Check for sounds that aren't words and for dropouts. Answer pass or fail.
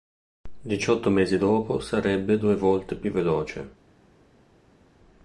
pass